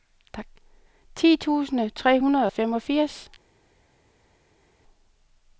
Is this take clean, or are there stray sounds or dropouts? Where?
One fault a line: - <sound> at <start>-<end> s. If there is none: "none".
none